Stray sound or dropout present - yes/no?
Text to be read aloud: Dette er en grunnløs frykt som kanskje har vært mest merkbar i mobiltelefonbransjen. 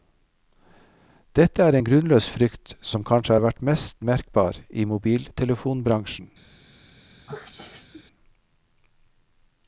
yes